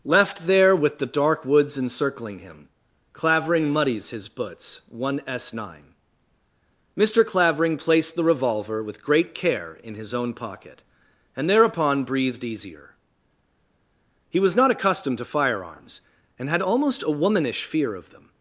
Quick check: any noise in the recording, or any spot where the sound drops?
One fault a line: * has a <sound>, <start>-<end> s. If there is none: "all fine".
all fine